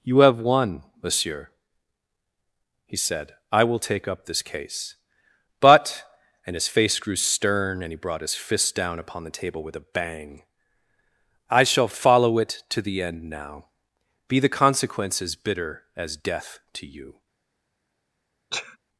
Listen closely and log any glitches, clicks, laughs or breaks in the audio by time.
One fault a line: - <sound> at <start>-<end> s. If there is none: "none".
- sneeze at 18.5-18.8 s